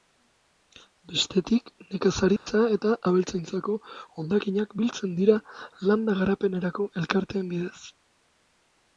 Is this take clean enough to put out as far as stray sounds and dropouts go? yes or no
no